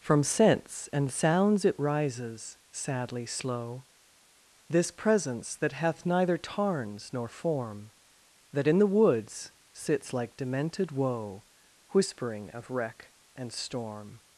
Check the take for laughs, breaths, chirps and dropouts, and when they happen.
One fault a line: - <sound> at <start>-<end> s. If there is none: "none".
none